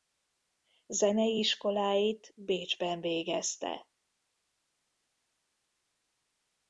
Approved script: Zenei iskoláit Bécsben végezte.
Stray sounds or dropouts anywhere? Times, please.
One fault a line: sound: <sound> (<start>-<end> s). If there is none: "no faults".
no faults